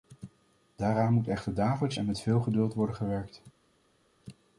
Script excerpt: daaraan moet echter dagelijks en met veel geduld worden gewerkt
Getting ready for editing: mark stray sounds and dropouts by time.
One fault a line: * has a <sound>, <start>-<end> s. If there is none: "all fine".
all fine